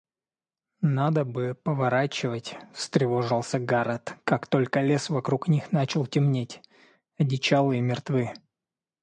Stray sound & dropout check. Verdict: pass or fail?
pass